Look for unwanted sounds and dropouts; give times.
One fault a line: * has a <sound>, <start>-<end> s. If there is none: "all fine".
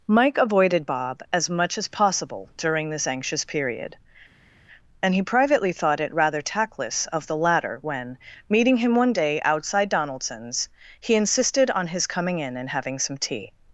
all fine